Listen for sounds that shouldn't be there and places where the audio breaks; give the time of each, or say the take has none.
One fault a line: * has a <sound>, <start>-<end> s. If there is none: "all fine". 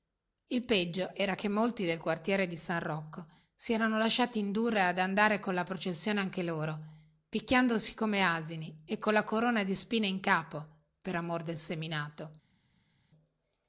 all fine